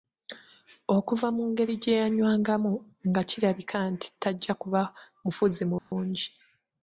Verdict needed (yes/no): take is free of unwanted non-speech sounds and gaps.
no